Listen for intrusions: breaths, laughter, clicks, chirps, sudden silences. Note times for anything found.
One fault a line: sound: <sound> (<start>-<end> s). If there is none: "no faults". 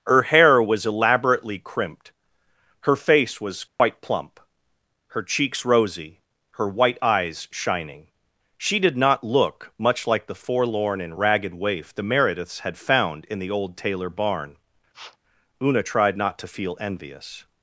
sound: dropout (3.7-3.8 s)
sound: sniff (14.9-15.2 s)